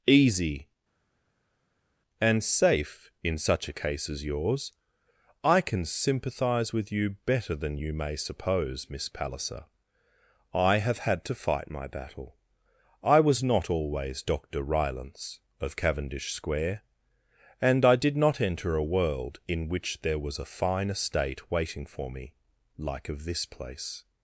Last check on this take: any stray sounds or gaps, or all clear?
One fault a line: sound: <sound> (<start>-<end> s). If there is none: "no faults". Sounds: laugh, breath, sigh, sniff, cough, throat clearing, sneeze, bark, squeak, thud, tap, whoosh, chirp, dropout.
no faults